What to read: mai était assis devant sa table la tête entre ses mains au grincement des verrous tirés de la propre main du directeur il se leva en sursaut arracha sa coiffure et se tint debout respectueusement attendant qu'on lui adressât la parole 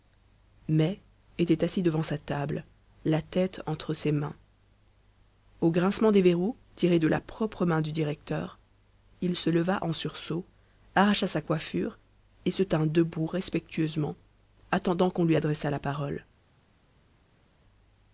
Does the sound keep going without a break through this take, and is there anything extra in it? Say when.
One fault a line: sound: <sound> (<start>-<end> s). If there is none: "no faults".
no faults